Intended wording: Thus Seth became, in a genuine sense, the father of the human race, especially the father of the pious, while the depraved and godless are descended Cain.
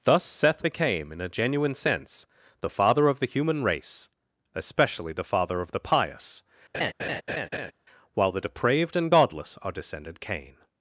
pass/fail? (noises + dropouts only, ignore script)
fail